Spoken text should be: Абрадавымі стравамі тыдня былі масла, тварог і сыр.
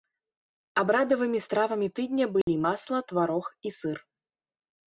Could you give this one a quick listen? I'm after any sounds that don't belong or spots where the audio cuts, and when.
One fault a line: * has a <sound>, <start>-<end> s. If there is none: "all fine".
* has a dropout, 2.4-2.5 s